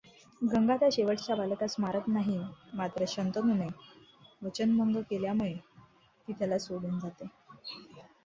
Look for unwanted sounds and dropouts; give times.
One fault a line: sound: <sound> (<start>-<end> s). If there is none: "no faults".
no faults